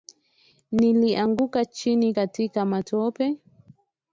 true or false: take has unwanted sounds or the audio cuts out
false